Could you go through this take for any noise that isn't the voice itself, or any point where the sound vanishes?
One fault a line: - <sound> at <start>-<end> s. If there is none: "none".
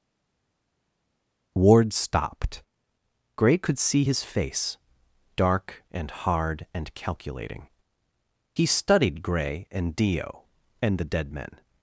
none